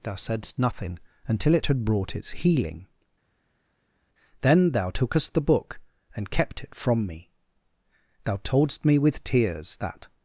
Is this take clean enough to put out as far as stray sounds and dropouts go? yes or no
yes